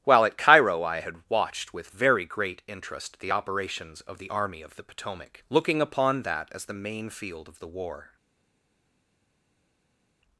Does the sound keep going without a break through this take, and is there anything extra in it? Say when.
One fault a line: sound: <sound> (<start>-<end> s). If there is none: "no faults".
no faults